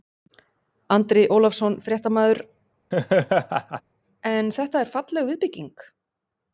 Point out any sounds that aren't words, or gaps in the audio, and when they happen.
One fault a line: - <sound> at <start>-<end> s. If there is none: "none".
- laugh at 2.9-3.8 s